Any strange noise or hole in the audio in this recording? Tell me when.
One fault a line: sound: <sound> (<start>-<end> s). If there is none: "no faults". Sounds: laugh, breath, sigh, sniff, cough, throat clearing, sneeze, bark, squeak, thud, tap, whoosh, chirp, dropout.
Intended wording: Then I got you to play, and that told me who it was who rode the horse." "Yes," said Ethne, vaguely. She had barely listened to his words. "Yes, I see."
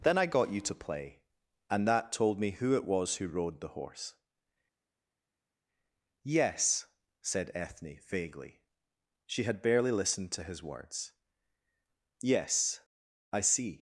no faults